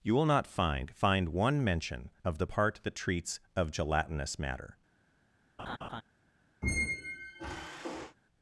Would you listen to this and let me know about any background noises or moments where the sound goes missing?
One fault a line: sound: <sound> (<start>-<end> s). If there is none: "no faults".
sound: laugh (5.6-6.0 s)
sound: squeak (6.6-8.2 s)